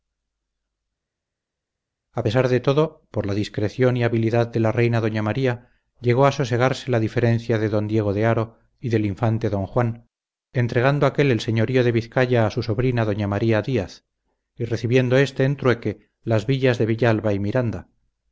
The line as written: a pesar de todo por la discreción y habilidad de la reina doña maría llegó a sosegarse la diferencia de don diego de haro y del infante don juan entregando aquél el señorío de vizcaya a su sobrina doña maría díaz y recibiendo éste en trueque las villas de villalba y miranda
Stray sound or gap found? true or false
false